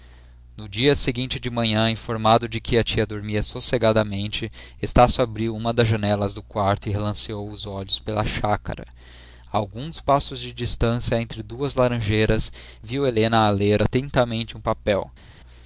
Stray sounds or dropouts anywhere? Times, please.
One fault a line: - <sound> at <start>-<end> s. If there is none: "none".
none